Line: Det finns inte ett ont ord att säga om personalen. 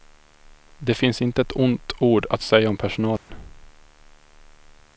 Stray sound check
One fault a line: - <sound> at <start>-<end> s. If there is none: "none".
- dropout at 3.2-3.3 s